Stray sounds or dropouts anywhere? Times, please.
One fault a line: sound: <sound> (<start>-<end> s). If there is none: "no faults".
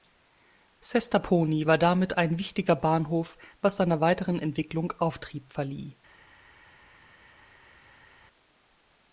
no faults